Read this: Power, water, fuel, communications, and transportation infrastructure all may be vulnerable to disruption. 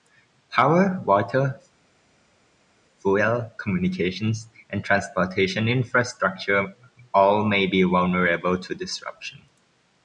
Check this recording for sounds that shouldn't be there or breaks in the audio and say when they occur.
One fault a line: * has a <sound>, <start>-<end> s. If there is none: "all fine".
all fine